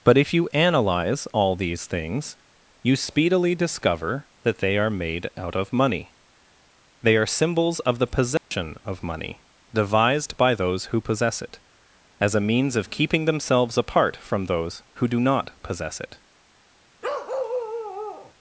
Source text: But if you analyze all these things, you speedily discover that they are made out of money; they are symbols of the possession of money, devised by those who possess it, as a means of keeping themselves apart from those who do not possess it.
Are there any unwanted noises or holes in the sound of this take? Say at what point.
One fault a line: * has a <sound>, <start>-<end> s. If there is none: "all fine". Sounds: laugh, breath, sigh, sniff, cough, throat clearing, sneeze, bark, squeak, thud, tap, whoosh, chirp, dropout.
* has a dropout, 8.4-8.5 s
* has a bark, 17.0-18.3 s